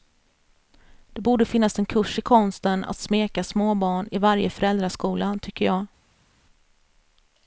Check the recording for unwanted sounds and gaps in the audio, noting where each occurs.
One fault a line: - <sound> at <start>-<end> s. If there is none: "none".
none